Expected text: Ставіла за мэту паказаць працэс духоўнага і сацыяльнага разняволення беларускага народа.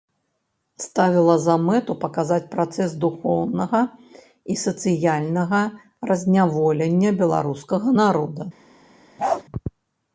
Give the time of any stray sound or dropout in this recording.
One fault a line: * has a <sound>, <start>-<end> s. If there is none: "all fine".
* has a bark, 9.2-9.4 s